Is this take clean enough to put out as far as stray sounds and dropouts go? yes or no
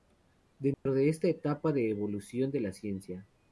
no